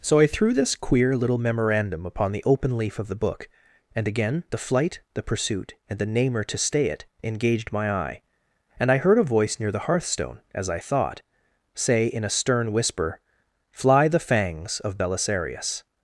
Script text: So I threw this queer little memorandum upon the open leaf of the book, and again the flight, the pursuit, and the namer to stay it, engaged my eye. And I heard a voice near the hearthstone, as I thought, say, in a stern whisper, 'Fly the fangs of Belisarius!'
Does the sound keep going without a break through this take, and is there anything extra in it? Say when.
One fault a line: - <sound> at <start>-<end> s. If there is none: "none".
none